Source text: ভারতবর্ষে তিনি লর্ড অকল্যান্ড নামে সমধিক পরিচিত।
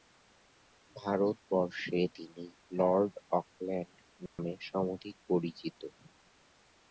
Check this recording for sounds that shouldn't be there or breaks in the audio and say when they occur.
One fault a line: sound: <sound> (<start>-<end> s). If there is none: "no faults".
sound: dropout (4.3-4.4 s)